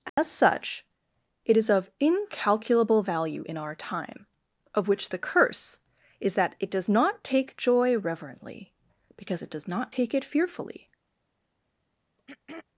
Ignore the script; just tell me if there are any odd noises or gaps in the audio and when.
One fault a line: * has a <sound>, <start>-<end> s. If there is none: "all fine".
* has a dropout, 0.1-0.2 s
* has a throat clearing, 12.2-12.6 s